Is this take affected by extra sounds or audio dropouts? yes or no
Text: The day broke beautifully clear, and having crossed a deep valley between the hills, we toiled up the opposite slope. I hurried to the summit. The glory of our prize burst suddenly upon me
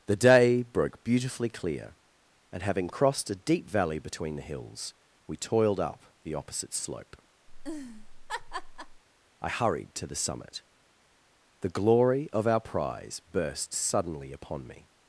yes